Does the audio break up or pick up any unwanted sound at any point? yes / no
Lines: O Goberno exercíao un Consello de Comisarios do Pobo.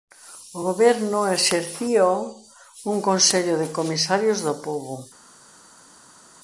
no